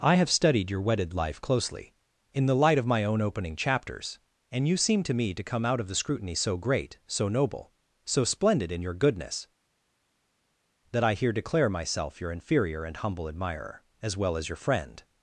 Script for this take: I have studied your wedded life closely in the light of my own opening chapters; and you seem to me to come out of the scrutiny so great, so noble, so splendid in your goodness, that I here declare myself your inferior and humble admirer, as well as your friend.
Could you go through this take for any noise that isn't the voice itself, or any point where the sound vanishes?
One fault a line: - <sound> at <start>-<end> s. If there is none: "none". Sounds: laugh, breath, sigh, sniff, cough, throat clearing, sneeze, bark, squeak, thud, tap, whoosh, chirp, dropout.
none